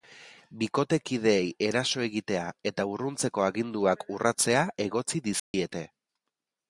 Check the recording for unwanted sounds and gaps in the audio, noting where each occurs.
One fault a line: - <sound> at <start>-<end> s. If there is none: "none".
- dropout at 5.4-5.5 s